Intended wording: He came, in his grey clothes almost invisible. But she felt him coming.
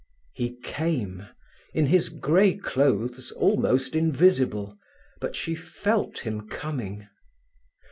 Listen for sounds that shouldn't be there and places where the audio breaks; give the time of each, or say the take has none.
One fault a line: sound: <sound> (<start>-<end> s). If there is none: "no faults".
no faults